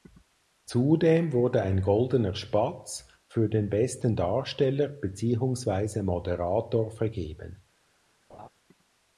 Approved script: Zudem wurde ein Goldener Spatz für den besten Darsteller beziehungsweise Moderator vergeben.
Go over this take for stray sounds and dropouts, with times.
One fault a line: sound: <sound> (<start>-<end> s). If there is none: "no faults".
sound: laugh (8.3-8.5 s)